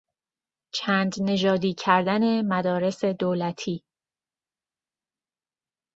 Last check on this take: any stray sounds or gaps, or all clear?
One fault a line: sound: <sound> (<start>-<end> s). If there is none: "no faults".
no faults